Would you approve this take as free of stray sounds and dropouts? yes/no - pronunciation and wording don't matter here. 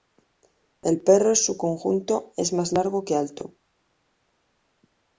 yes